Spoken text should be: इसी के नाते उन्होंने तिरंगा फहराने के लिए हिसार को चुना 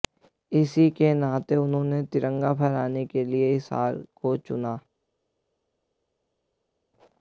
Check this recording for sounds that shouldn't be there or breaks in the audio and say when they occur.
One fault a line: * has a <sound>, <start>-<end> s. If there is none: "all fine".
all fine